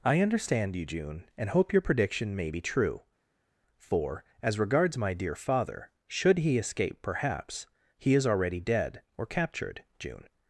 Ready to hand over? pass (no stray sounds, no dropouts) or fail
pass